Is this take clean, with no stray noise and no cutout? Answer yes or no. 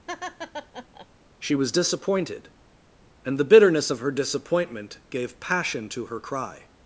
no